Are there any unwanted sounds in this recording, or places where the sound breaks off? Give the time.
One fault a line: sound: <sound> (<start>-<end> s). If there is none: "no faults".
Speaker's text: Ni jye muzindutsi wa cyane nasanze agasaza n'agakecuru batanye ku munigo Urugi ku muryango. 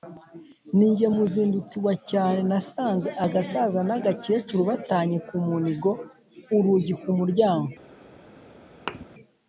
sound: thud (8.9-9.1 s)